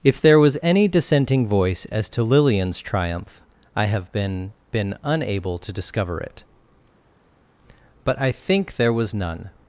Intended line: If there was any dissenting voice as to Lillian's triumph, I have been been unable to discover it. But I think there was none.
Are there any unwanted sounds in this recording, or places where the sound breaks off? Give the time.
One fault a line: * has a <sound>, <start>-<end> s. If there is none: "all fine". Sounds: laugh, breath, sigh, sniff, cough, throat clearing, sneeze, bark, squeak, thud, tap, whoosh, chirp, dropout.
all fine